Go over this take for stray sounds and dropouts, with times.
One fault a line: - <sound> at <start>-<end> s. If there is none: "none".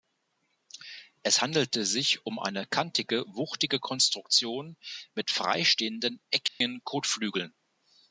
- dropout at 6.5-6.6 s